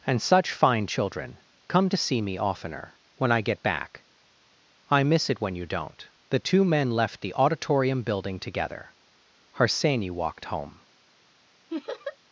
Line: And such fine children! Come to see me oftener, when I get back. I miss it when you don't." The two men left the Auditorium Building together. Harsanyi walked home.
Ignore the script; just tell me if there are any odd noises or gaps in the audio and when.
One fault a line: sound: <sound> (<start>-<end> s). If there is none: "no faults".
sound: laugh (11.7-12.2 s)